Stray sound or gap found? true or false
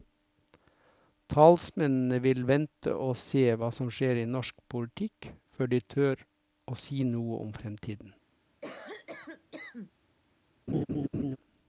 true